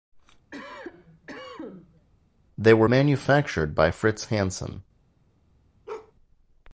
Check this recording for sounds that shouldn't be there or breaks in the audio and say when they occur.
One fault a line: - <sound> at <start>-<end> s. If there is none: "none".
- cough at 0.5-2.1 s
- bark at 5.9-6.1 s